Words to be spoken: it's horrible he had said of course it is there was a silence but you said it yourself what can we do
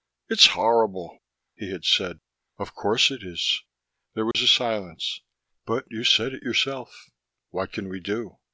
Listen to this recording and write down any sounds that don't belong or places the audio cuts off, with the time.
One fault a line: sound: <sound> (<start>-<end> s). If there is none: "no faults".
sound: dropout (4.3-4.3 s)